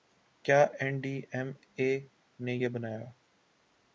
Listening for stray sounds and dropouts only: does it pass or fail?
pass